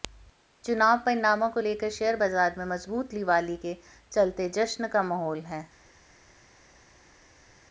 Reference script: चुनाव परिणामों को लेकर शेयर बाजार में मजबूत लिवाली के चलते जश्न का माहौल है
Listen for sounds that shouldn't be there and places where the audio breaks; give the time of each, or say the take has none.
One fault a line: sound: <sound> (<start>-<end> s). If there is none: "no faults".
no faults